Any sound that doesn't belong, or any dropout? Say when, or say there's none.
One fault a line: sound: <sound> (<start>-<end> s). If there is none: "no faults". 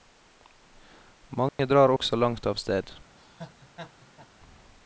sound: dropout (1.5-1.6 s)
sound: laugh (3.2-4.3 s)